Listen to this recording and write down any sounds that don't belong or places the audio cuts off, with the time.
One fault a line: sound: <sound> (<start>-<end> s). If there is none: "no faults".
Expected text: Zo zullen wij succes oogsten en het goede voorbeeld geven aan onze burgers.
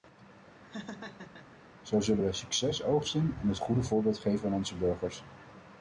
sound: laugh (0.6-1.6 s)